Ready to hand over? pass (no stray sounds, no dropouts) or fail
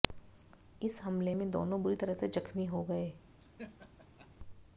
fail